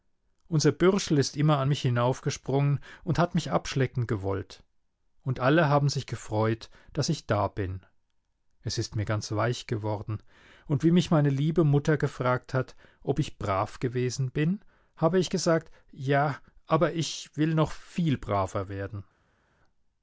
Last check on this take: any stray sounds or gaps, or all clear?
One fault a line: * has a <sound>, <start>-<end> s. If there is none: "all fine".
all fine